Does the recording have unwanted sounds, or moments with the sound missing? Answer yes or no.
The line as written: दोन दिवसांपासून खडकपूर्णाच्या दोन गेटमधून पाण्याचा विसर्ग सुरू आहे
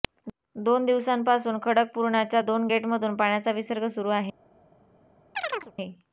yes